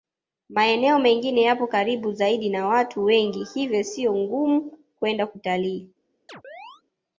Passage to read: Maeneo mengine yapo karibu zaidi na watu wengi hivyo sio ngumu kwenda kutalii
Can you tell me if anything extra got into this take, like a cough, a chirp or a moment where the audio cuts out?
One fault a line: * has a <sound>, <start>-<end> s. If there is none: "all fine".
* has a chirp, 6.3-6.8 s